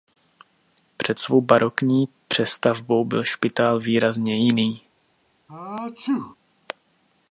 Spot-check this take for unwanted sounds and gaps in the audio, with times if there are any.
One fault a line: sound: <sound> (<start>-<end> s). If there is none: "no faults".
sound: sneeze (5.5-6.4 s)